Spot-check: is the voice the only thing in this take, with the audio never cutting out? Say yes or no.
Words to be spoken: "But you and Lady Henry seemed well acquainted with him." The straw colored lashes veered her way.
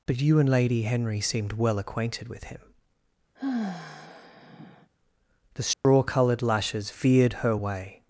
no